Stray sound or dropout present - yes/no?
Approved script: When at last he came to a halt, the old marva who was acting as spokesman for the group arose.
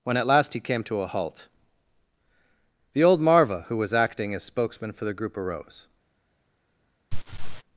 yes